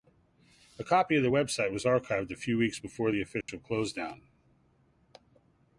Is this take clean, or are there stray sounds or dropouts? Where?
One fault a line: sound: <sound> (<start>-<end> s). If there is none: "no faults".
sound: dropout (3.4-3.5 s)